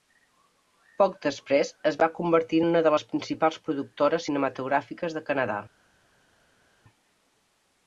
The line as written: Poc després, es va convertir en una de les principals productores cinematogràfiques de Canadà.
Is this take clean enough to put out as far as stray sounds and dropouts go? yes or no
yes